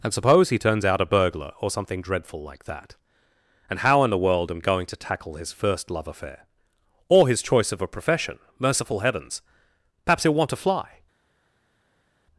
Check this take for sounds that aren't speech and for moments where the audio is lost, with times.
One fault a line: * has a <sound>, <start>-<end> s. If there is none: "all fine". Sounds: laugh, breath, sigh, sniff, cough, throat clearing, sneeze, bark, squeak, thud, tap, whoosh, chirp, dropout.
all fine